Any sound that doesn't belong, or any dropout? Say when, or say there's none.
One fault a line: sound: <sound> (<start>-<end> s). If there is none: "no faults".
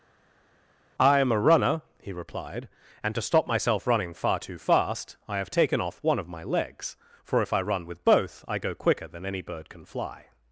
no faults